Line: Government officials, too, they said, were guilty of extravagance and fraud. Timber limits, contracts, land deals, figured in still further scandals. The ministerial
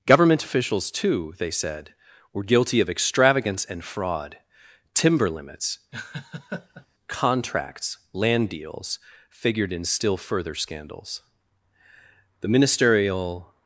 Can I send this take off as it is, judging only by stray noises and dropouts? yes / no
no